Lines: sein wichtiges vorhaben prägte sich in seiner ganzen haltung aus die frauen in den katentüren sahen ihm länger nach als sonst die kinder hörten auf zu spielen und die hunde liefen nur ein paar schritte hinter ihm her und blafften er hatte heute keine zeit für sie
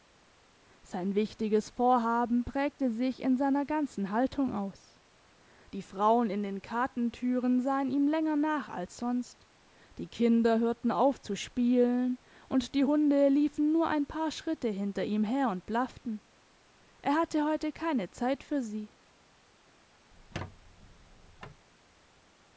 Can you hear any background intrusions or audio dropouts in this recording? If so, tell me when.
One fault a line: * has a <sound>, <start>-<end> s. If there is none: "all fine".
* has a squeak, 20.1-21.7 s